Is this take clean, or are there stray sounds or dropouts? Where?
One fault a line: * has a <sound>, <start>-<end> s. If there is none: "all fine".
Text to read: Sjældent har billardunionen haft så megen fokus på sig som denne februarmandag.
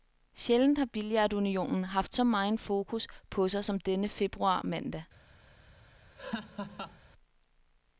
* has a laugh, 6.2-7.0 s